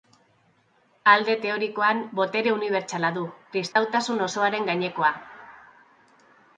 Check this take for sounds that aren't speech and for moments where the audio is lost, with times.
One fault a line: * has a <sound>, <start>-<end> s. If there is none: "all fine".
* has a dropout, 3.7-3.8 s